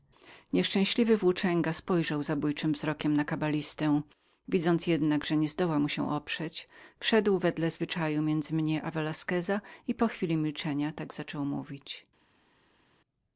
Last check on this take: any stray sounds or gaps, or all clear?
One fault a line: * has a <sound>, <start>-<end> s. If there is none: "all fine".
all fine